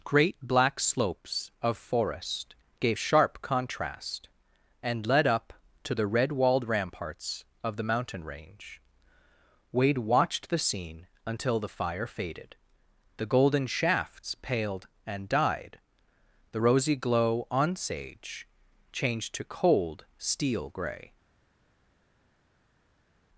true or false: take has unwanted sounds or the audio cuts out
false